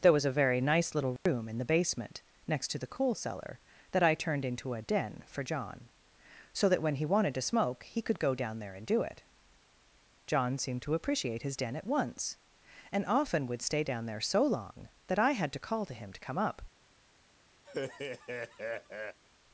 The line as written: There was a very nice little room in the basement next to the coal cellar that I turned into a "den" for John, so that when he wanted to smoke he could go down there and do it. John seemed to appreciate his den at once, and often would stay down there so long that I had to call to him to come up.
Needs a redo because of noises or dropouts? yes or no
yes